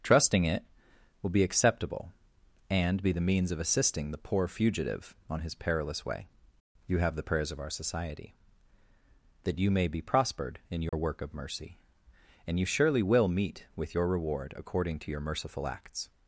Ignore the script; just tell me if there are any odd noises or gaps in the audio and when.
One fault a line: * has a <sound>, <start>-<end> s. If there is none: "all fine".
* has a dropout, 10.9-10.9 s